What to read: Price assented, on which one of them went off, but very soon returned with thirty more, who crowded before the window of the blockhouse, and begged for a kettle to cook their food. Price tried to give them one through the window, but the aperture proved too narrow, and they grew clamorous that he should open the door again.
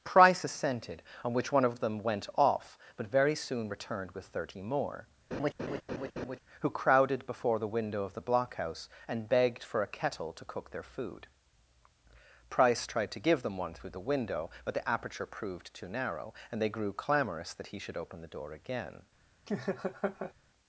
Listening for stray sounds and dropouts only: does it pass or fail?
fail